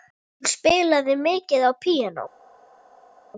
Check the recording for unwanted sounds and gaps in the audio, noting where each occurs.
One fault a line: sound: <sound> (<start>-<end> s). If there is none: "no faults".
no faults